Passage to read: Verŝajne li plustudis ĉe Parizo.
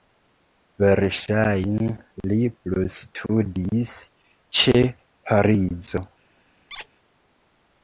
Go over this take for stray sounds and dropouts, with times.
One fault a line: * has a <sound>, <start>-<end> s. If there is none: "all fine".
* has a squeak, 6.7-6.9 s